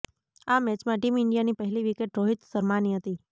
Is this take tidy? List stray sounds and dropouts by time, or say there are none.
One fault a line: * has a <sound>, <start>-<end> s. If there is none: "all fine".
all fine